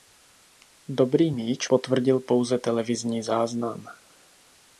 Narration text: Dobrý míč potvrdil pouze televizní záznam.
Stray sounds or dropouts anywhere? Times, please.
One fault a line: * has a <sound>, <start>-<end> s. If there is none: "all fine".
all fine